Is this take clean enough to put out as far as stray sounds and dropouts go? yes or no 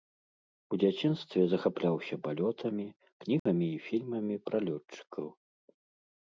no